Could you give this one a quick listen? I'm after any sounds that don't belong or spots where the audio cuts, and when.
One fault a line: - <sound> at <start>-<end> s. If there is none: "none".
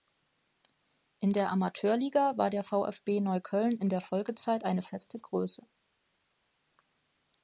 none